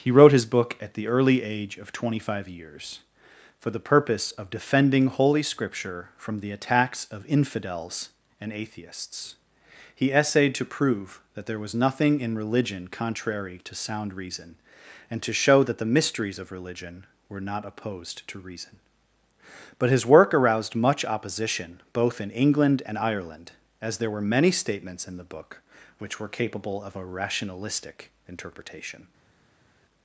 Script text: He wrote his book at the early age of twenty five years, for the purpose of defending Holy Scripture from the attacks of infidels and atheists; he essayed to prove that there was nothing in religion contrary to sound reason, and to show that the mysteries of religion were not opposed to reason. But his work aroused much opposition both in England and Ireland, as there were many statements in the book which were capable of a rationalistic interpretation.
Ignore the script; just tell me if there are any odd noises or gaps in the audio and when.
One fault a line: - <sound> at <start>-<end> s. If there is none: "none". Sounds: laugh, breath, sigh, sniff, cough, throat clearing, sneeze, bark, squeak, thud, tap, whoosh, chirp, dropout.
none